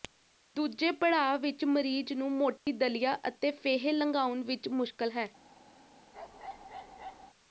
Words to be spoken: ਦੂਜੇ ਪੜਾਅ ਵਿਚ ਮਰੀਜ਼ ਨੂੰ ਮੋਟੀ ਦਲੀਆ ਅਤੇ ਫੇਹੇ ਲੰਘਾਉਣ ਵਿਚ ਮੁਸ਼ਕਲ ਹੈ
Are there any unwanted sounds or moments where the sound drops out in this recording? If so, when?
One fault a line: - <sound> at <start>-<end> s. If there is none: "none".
- dropout at 2.6-2.7 s
- bark at 6.1-7.3 s